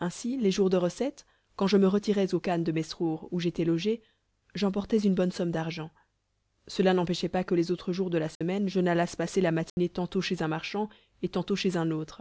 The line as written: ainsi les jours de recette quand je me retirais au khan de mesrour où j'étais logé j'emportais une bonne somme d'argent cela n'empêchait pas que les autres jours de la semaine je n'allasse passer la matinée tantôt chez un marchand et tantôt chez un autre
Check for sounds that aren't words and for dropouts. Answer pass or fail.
fail